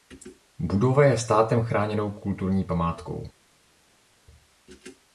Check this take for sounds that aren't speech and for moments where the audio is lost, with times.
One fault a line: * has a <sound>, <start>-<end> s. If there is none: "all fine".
all fine